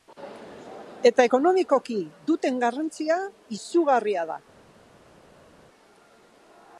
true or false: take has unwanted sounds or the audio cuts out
false